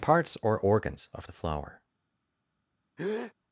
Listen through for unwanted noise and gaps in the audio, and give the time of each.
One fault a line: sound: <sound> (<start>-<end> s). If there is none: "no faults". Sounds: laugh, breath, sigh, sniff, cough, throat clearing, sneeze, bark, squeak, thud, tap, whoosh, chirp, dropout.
sound: breath (3.0-3.3 s)